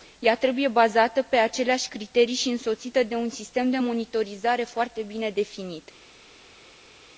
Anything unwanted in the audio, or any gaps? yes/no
no